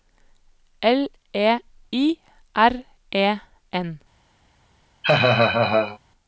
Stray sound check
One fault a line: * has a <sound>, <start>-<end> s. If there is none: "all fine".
* has a laugh, 5.0-6.0 s